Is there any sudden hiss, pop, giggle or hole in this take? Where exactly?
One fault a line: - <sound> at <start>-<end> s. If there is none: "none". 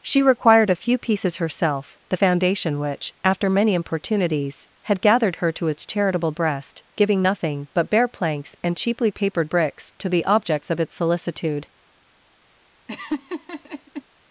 - laugh at 12.9-14.0 s